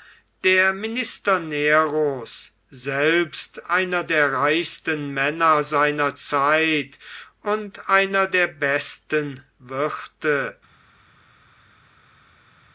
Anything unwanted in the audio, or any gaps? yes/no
no